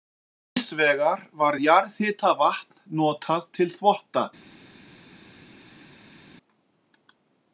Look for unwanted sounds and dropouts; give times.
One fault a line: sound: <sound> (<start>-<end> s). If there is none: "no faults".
no faults